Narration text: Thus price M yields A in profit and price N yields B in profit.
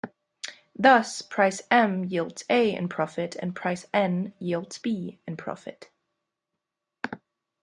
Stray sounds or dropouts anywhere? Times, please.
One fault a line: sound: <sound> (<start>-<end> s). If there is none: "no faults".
no faults